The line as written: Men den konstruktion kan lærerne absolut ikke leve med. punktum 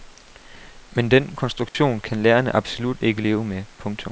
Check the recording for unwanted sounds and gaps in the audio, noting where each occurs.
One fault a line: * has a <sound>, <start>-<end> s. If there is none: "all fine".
* has a dropout, 1.7-1.7 s